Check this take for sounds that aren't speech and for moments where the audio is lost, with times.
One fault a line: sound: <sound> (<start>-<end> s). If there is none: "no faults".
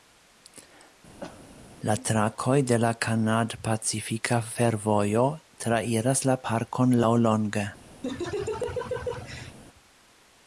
sound: cough (1.2-1.5 s)
sound: laugh (8.0-9.6 s)